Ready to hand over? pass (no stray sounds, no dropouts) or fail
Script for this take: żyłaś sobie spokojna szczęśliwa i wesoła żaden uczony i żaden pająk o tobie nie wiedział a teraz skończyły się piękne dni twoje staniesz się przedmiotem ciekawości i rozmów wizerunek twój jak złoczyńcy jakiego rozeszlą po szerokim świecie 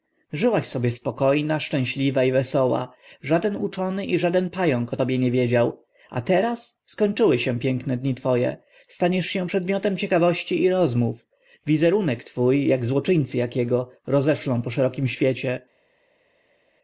pass